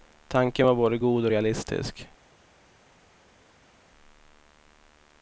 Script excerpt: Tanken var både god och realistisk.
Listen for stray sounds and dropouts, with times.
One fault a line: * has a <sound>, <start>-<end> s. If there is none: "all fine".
all fine